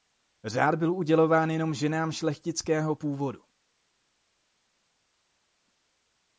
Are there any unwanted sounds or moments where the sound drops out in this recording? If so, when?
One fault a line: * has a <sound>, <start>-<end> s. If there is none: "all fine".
all fine